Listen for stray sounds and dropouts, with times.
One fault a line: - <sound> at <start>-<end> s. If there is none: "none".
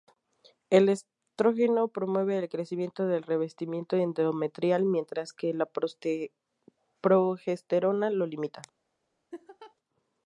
- laugh at 9.3-9.7 s